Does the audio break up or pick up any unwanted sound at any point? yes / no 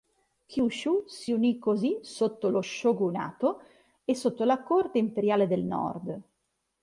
no